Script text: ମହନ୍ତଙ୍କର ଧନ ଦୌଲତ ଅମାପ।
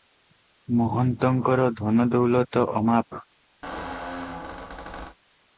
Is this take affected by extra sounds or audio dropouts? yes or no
yes